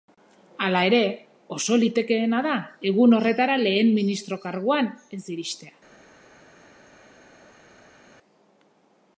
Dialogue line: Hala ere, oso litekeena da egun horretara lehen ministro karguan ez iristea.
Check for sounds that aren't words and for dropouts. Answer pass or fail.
pass